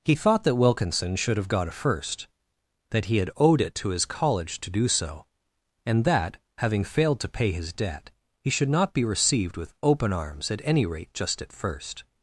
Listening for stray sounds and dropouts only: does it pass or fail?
pass